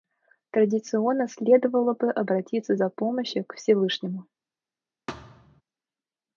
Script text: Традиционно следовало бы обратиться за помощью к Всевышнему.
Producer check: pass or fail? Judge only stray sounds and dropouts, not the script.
fail